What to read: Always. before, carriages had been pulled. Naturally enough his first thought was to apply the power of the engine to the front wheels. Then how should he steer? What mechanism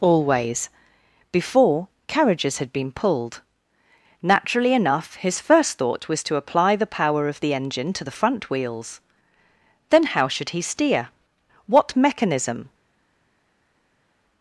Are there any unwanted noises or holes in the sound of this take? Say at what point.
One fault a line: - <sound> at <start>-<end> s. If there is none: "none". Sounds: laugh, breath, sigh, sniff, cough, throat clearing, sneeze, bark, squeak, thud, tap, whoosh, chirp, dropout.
none